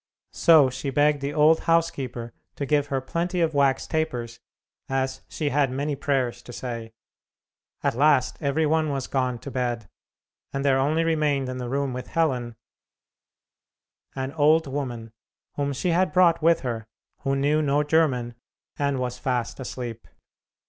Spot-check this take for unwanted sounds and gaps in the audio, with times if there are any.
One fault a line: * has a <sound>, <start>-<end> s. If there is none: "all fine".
all fine